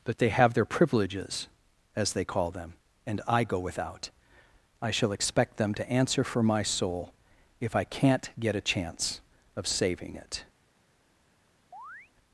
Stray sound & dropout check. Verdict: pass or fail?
fail